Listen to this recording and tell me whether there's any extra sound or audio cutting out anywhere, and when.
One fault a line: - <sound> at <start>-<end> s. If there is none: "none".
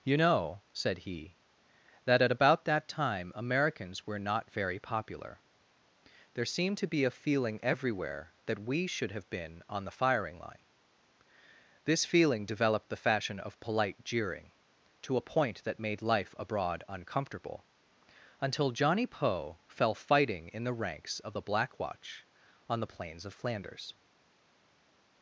none